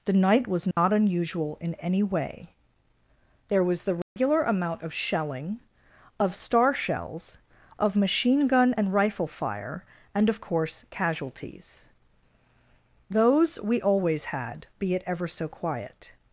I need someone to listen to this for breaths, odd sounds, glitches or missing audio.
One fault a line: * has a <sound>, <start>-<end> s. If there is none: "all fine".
* has a dropout, 0.7-0.8 s
* has a dropout, 4.0-4.2 s